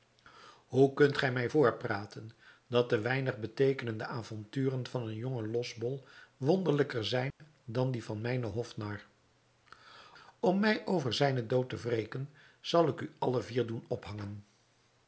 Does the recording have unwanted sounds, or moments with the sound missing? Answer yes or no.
yes